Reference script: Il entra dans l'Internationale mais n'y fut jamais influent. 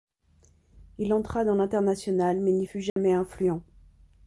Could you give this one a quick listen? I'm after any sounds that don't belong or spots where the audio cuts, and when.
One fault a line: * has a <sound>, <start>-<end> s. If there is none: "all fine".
* has a dropout, 2.9-3.0 s